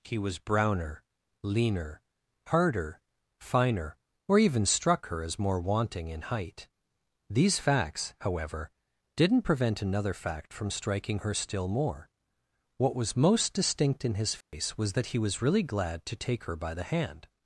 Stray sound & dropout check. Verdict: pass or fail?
fail